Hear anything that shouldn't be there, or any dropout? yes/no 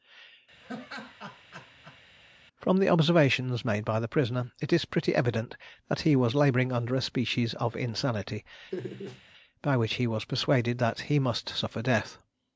yes